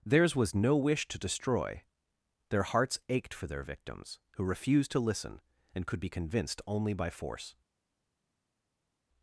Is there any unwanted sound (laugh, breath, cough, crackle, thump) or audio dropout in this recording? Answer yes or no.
no